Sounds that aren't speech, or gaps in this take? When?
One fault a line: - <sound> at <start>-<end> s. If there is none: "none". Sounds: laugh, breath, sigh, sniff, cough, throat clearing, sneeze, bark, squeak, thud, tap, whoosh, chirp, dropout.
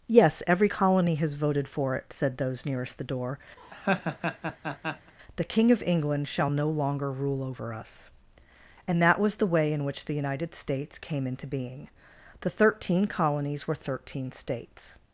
- laugh at 3.6-5.1 s